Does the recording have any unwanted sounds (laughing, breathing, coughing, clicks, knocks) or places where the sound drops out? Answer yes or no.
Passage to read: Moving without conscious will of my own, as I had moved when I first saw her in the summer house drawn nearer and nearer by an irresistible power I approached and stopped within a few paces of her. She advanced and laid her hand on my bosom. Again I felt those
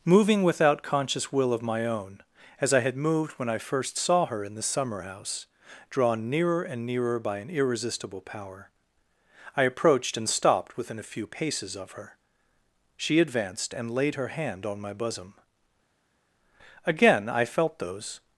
no